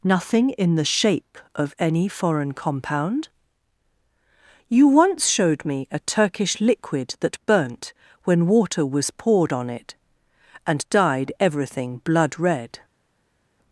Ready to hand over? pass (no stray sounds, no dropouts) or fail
pass